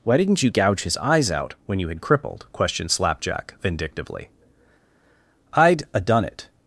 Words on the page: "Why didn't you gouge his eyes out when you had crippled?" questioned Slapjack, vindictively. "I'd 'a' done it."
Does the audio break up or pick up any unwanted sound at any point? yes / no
no